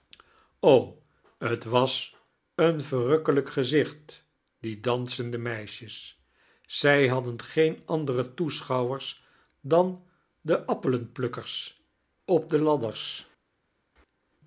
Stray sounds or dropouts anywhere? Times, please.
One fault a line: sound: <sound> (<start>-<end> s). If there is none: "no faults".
no faults